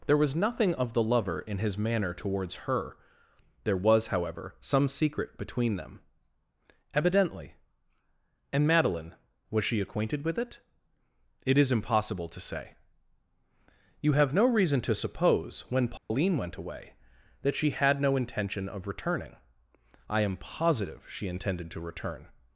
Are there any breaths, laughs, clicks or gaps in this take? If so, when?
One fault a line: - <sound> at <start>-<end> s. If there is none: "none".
- dropout at 16.0-16.1 s